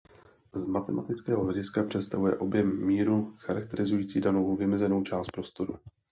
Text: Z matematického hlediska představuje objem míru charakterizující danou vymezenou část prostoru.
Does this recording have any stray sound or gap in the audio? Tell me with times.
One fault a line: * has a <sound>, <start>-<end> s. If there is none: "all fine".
all fine